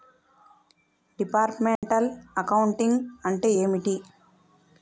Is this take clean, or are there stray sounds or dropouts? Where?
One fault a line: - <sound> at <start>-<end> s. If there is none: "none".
- dropout at 1.8-1.8 s